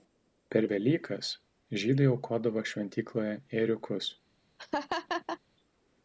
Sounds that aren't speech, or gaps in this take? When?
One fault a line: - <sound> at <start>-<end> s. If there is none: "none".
- laugh at 4.6-5.4 s